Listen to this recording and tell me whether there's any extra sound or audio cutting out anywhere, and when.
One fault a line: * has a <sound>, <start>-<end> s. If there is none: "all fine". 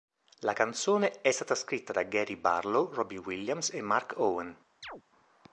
* has a chirp, 4.8-5.0 s